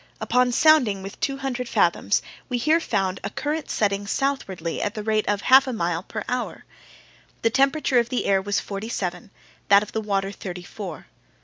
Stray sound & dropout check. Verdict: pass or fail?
pass